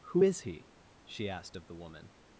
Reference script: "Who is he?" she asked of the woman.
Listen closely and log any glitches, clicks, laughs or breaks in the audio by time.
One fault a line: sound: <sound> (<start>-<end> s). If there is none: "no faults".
no faults